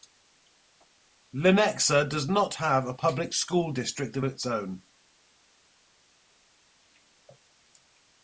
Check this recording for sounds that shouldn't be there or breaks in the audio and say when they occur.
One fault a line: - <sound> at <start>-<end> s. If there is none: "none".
none